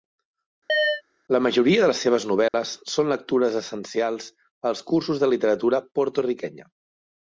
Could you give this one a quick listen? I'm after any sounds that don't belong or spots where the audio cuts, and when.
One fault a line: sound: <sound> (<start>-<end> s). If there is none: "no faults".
sound: chirp (0.7-1.0 s)
sound: dropout (2.5-2.5 s)